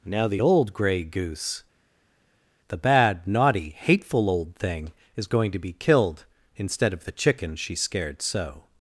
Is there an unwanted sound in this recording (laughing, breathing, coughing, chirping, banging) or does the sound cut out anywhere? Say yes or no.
no